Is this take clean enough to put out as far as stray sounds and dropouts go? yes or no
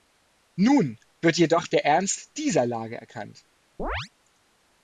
no